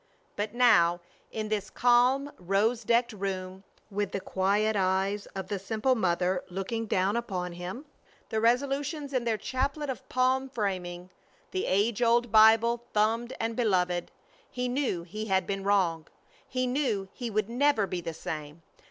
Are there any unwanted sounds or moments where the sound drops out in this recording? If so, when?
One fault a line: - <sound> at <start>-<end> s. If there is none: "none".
none